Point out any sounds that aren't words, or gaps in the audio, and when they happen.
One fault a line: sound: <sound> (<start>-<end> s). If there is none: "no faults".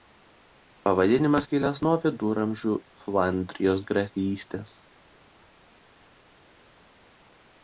no faults